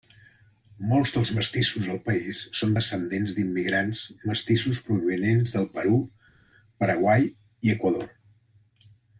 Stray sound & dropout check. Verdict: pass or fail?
pass